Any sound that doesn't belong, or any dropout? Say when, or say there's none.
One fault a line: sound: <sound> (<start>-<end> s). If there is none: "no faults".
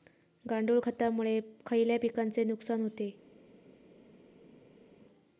no faults